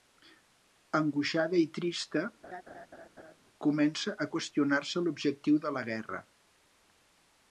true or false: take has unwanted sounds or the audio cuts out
true